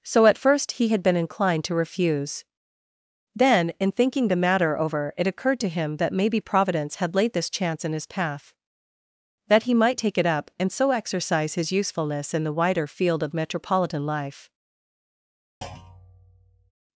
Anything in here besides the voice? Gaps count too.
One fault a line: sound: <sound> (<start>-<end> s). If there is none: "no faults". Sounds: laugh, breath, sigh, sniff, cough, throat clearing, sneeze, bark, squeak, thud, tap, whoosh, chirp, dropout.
sound: thud (15.6-16.7 s)